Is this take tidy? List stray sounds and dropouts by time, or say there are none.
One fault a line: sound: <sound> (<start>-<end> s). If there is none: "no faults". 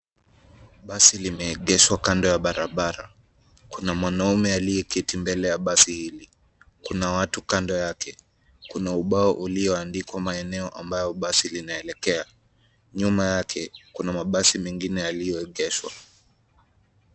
no faults